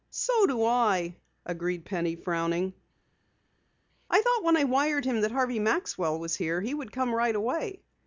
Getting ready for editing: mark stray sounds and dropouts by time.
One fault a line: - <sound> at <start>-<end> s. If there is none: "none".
none